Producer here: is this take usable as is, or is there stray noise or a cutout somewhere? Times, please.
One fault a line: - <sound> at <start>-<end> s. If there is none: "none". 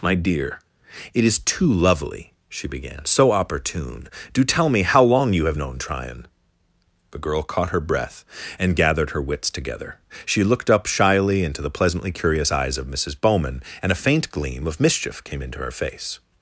none